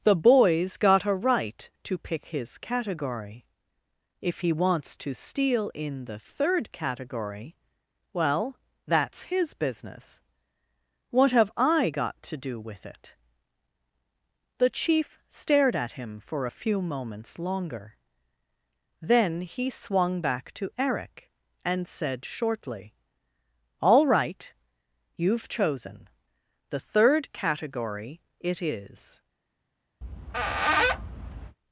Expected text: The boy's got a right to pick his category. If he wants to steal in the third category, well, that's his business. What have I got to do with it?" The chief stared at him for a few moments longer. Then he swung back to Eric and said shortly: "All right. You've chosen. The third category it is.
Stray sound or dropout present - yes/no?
yes